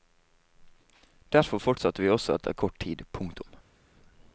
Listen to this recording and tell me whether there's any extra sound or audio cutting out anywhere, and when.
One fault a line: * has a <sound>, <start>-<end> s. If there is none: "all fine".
all fine